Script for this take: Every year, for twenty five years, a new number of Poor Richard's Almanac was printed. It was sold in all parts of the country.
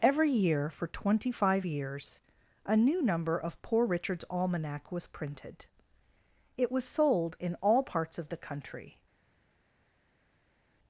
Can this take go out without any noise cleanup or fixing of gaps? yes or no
yes